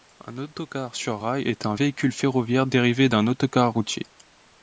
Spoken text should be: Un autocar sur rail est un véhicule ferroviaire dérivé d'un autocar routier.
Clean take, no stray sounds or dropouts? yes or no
yes